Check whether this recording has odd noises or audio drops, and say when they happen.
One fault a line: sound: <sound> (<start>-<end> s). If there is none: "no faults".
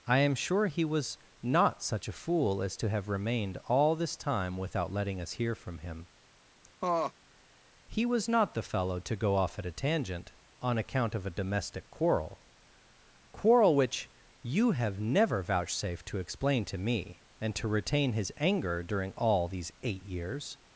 sound: laugh (6.8-7.1 s)